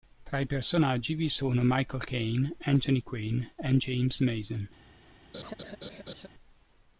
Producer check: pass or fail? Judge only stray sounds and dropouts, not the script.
fail